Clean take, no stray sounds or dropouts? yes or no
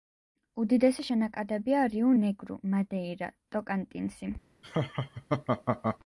no